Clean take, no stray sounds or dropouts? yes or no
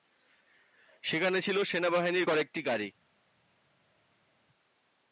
yes